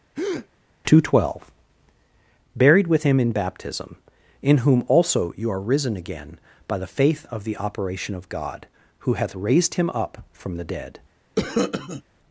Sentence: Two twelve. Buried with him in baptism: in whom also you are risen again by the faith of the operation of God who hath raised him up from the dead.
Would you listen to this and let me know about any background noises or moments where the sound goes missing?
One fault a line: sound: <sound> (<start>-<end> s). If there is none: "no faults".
sound: breath (0.2-0.5 s)
sound: cough (11.4-12.0 s)